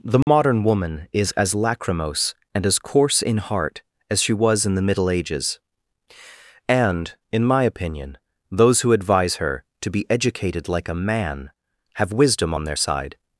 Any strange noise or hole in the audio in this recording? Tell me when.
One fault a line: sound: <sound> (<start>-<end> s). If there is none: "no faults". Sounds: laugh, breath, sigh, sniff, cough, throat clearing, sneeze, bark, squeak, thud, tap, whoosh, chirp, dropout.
sound: dropout (0.2-0.3 s)